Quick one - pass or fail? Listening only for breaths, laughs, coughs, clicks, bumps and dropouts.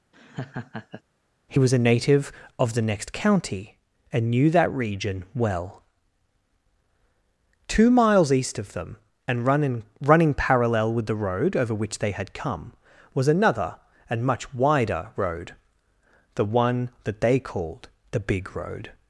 fail